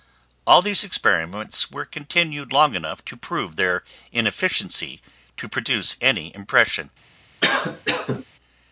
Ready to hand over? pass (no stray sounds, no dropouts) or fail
fail